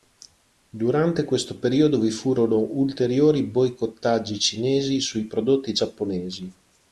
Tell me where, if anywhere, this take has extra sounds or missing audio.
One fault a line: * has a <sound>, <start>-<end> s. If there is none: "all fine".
all fine